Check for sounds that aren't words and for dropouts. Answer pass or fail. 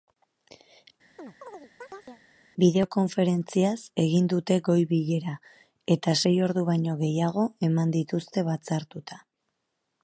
fail